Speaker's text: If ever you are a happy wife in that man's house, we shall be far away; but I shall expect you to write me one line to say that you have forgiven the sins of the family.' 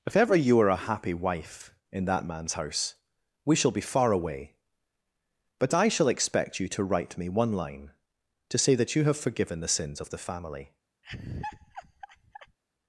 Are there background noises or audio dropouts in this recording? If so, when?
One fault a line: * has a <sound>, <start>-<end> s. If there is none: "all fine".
* has a laugh, 11.0-12.6 s